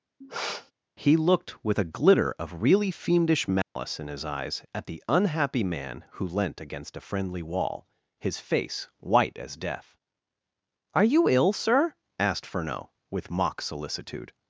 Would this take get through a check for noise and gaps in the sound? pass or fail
fail